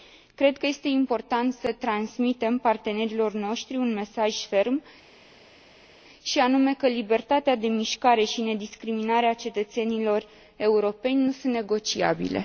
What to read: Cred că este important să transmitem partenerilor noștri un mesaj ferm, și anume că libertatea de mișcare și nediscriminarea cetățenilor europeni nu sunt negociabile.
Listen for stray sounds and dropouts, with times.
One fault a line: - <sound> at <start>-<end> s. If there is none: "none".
none